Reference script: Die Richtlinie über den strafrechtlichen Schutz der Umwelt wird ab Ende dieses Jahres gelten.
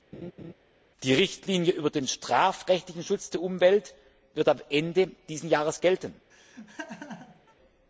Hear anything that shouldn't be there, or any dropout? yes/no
yes